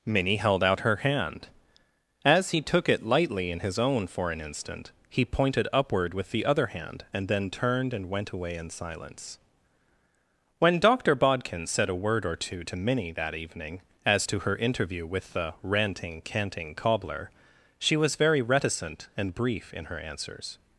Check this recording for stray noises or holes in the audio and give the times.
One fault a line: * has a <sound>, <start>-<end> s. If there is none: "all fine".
all fine